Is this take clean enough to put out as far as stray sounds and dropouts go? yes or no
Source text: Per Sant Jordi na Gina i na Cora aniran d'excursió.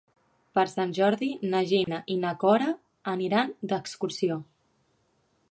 no